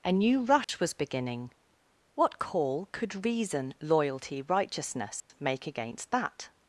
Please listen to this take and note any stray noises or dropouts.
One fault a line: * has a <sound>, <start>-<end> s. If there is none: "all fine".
* has a dropout, 0.6-0.7 s
* has a dropout, 5.2-5.3 s